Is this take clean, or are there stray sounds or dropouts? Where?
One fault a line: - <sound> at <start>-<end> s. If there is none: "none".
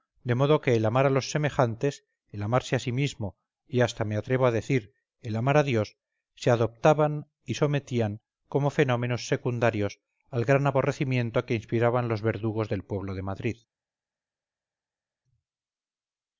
none